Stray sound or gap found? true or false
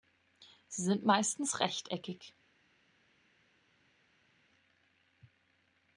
false